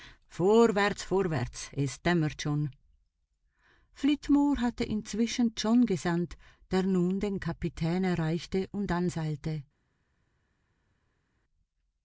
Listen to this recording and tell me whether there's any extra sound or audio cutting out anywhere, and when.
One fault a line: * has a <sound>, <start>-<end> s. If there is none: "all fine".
all fine